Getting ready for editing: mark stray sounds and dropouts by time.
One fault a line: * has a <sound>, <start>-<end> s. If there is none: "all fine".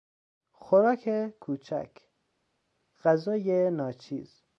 all fine